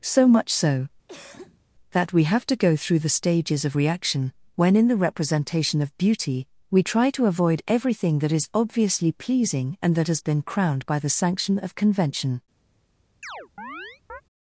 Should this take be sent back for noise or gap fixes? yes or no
yes